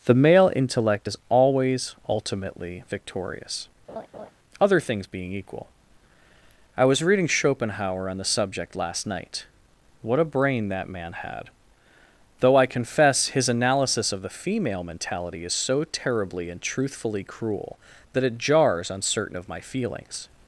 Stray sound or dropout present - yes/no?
yes